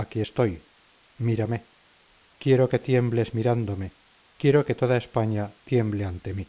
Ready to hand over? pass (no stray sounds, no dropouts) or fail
pass